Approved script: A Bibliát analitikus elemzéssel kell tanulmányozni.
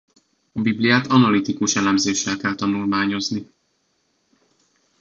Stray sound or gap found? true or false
false